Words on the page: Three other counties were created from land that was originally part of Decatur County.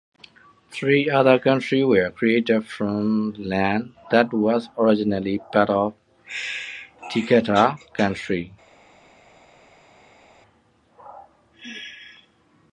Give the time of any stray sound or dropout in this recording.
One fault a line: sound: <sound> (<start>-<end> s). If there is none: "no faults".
no faults